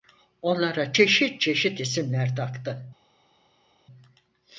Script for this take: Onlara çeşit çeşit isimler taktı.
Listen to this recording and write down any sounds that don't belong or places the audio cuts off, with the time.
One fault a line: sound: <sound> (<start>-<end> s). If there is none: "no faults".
no faults